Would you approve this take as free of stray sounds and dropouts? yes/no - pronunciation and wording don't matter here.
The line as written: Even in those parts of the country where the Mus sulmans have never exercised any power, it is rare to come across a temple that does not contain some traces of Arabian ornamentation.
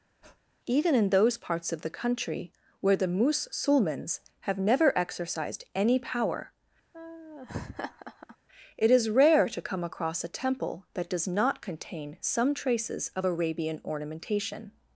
no